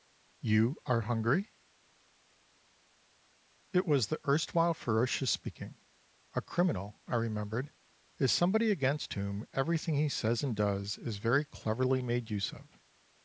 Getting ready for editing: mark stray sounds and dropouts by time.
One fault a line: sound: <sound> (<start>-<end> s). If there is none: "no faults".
no faults